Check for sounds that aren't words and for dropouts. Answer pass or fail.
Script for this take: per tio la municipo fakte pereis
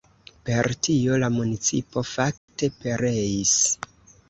fail